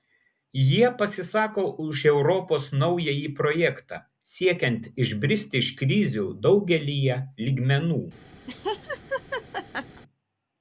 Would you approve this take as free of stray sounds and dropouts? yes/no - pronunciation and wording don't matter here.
no